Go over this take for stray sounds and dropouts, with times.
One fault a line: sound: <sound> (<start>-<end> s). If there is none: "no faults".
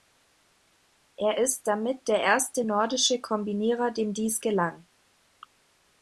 no faults